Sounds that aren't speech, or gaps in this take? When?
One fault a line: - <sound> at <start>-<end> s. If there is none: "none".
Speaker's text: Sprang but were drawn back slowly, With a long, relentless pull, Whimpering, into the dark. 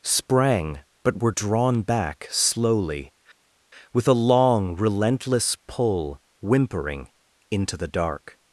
none